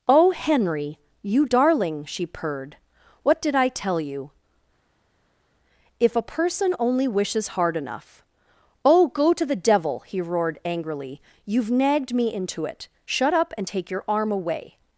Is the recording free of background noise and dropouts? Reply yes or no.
yes